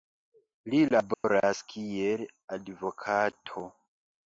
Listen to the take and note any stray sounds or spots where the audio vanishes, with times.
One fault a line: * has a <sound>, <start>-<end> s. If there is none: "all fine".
* has a dropout, 1.1-1.2 s